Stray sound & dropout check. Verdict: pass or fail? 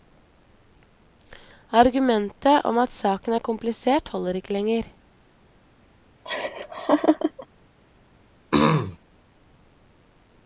fail